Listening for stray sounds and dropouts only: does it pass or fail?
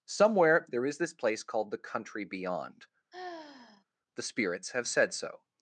fail